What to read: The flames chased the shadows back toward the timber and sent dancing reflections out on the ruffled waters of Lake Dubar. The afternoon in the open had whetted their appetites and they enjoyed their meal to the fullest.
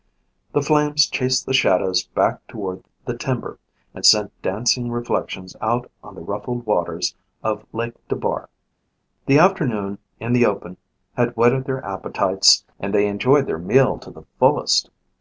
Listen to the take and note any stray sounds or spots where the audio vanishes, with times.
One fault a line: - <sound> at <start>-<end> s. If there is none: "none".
none